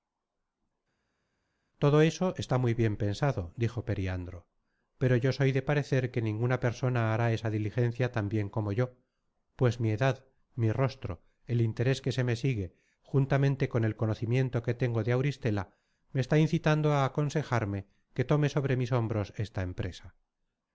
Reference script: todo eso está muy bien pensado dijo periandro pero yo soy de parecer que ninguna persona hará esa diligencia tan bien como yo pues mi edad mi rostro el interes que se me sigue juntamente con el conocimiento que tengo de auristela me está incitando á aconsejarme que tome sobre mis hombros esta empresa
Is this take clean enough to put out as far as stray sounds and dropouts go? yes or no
yes